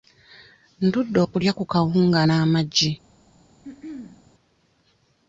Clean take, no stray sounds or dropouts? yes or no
no